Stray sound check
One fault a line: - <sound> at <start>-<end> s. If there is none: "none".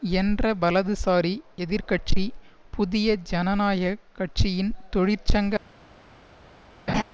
- laugh at 6.9-7.0 s